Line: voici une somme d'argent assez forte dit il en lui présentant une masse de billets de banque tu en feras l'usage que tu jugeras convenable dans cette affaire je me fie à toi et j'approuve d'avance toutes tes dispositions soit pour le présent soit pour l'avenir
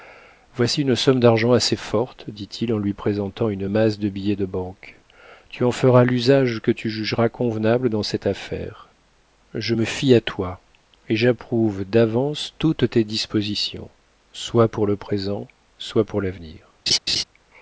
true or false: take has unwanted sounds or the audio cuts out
true